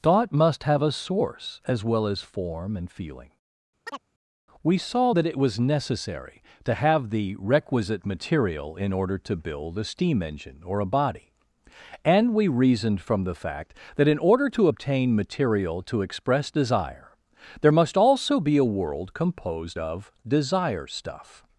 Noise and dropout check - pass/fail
fail